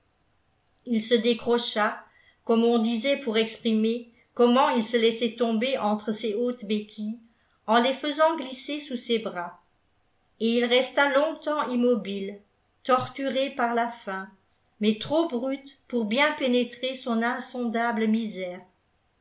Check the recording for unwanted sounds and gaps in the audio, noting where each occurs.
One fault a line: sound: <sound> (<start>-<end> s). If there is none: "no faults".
no faults